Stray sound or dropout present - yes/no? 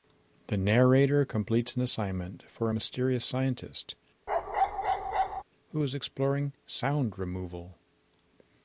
yes